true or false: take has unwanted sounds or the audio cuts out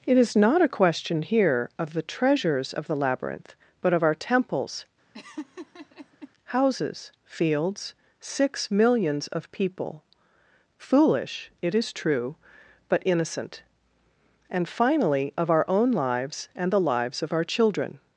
true